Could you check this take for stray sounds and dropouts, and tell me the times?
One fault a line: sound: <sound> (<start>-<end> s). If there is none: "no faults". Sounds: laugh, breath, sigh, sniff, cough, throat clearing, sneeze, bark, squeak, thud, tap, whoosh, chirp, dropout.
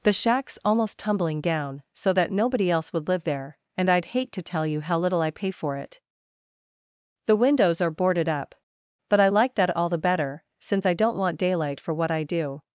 no faults